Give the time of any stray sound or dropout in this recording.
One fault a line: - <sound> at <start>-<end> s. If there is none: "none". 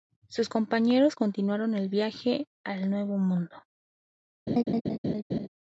- laugh at 4.5-5.5 s